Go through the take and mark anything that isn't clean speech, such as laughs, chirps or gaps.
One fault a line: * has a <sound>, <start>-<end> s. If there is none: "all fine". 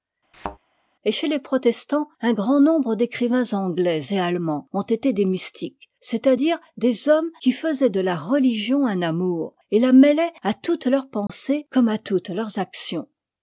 * has a thud, 0.3-0.6 s
* has a dropout, 11.3-11.3 s